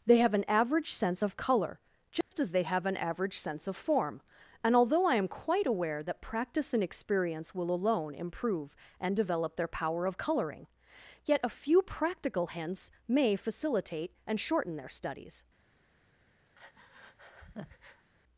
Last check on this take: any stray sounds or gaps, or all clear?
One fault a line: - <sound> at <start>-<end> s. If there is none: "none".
- dropout at 2.2-2.3 s
- breath at 16.5-18.1 s